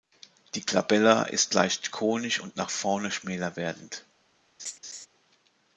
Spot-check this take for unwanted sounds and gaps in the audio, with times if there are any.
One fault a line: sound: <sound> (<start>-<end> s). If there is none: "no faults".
sound: laugh (4.6-5.1 s)